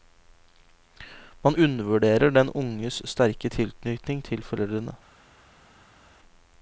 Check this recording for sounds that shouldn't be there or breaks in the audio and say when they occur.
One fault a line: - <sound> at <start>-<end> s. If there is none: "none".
none